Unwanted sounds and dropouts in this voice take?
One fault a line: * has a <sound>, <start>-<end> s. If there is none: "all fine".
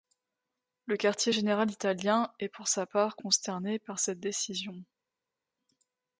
all fine